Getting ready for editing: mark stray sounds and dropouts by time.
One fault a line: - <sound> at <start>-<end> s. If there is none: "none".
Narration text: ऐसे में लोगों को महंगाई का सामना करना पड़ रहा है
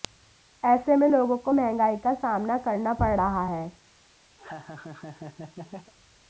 - laugh at 4.4-5.9 s